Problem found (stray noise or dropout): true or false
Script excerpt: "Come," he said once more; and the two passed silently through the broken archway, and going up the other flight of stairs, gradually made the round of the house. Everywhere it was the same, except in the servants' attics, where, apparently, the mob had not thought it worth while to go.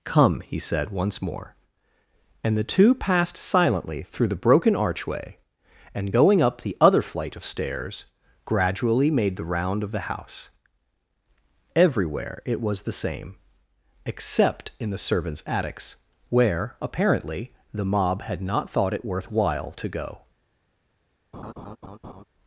true